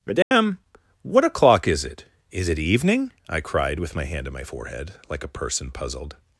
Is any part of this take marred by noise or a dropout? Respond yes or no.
yes